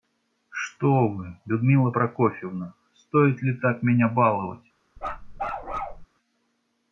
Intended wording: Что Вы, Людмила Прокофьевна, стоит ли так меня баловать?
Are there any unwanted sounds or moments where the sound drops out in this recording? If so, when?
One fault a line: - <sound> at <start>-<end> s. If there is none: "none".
- bark at 5.0-6.1 s